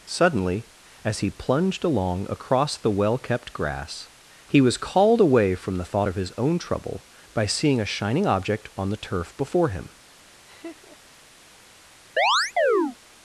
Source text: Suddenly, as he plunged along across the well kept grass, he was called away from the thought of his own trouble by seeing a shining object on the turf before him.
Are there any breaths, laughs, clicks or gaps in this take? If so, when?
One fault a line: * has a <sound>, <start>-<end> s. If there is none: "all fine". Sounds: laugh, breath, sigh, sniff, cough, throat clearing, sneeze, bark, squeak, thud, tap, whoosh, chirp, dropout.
* has a laugh, 10.5-11.2 s
* has a chirp, 12.2-13.0 s